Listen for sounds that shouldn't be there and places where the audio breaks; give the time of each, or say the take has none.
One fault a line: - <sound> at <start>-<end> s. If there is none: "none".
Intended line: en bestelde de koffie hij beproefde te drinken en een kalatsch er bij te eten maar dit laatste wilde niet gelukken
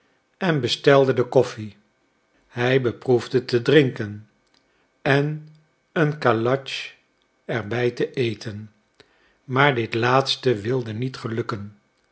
none